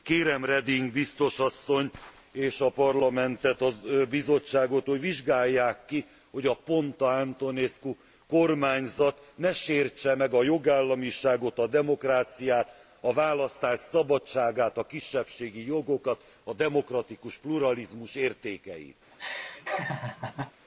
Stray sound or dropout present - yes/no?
yes